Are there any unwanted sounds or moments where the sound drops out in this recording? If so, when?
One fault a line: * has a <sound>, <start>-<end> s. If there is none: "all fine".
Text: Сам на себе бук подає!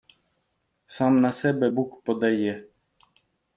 all fine